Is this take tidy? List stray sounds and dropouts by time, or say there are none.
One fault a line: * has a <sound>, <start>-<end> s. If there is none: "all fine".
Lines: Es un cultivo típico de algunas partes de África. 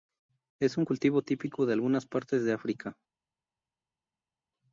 all fine